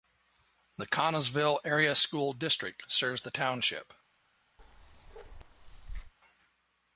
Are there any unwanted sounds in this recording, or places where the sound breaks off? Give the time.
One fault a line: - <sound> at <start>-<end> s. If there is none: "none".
- bark at 4.6-6.1 s